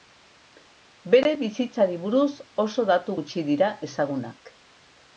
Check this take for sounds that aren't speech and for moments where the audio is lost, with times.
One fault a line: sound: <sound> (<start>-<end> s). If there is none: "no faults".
no faults